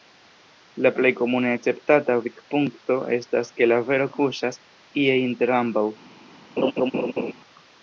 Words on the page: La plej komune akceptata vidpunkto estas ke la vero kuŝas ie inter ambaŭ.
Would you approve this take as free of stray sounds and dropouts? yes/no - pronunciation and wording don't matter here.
no